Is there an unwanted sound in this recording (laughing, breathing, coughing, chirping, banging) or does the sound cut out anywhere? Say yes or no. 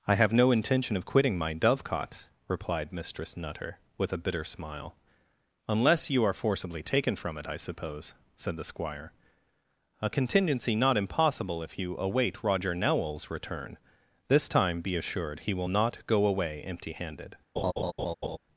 yes